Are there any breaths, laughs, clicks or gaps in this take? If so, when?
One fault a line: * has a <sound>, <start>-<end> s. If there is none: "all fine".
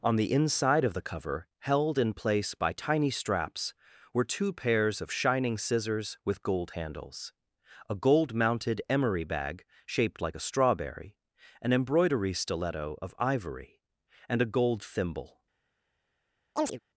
* has a chirp, 16.6-16.8 s